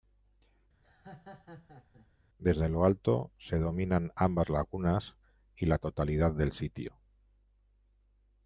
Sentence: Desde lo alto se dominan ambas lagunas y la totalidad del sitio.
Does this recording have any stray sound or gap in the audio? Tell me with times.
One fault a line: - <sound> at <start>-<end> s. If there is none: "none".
- laugh at 0.8-2.1 s